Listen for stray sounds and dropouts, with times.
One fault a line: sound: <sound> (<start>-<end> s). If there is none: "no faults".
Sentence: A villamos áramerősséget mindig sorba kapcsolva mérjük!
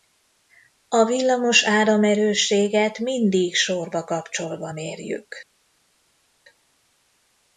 no faults